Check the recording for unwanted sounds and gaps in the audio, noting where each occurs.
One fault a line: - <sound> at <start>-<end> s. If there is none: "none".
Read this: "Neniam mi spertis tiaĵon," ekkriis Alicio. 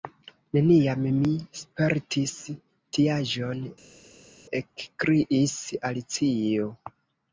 none